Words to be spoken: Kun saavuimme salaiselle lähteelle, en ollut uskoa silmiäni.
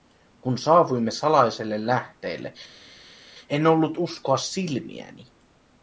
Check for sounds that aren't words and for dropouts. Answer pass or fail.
pass